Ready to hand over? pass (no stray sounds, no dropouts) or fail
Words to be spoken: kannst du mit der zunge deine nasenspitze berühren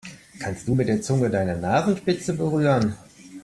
pass